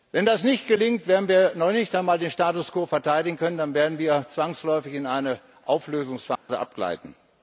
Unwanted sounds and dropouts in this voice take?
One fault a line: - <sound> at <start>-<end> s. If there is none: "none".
- dropout at 6.4-6.5 s